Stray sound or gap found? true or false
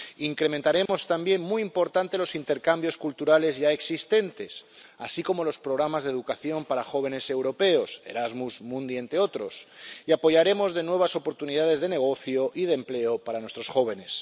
true